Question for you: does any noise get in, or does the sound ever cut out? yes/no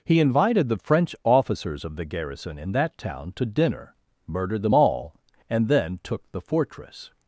no